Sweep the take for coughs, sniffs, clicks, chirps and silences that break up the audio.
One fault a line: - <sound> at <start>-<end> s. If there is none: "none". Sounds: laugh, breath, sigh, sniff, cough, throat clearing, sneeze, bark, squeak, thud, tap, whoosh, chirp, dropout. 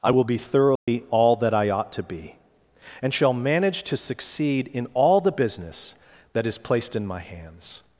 - dropout at 0.8-0.9 s